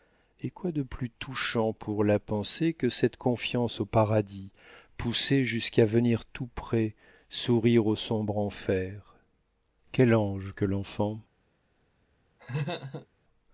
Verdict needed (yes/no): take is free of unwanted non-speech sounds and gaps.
no